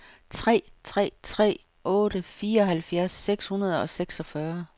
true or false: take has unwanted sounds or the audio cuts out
false